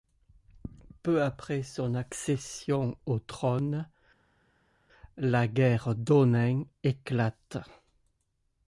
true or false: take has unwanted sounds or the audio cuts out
false